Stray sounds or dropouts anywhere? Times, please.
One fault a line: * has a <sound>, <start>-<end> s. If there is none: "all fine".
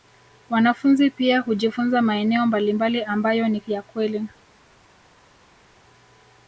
all fine